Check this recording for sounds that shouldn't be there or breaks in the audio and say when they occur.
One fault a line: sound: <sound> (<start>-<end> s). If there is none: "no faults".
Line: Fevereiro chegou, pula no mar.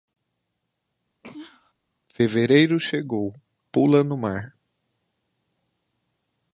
sound: sneeze (1.2-1.7 s)